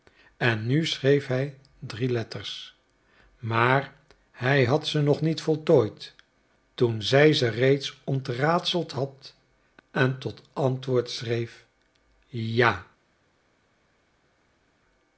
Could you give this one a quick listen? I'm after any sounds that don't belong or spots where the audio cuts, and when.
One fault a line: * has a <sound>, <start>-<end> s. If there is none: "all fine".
all fine